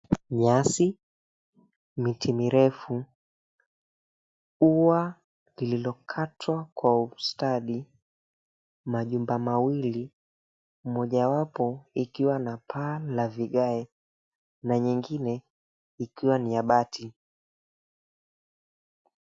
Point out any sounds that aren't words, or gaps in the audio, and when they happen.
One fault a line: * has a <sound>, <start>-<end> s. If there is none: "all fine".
all fine